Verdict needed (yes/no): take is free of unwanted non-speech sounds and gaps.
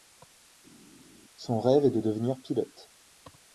yes